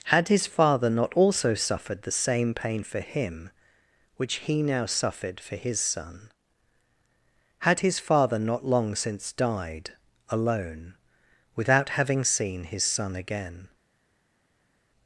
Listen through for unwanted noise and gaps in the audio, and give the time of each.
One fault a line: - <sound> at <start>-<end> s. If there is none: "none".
none